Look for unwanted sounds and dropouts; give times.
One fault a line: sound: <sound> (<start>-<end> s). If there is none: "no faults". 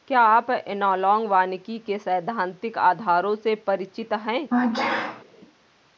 sound: sneeze (4.5-5.2 s)